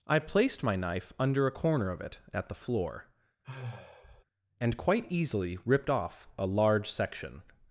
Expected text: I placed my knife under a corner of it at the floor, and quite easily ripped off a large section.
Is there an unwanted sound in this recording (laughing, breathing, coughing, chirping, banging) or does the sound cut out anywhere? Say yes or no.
yes